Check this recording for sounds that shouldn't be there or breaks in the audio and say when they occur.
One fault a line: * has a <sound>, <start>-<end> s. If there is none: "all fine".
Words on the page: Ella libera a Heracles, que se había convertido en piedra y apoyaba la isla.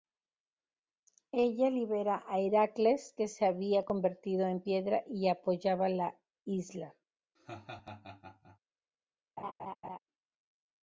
* has a laugh, 7.4-8.6 s
* has a laugh, 9.4-10.0 s